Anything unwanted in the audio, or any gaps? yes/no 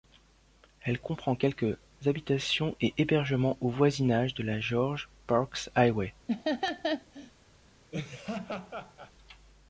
yes